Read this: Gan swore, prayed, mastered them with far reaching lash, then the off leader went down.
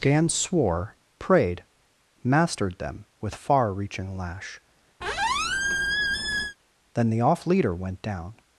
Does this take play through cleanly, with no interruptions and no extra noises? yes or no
no